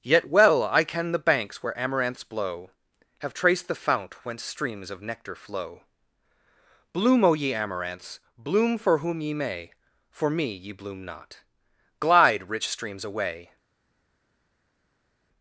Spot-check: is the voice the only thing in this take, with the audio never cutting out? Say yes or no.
yes